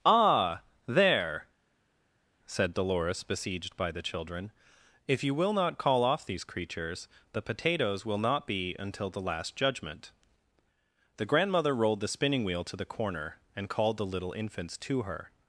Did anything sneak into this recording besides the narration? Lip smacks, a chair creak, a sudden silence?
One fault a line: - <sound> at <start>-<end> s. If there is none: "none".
none